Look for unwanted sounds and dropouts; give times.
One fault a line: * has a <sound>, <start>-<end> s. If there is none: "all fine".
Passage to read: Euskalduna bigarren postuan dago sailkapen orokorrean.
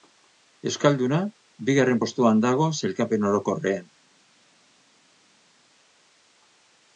all fine